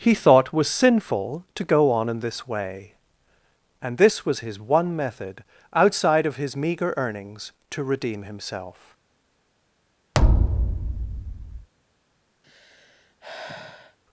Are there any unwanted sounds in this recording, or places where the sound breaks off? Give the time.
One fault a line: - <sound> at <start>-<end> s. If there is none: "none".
- thud at 10.1-11.7 s
- sigh at 12.4-14.0 s